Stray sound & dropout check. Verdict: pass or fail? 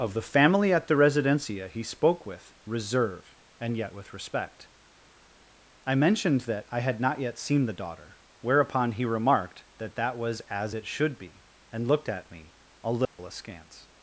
fail